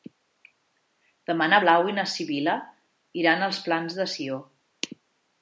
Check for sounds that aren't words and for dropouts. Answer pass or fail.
pass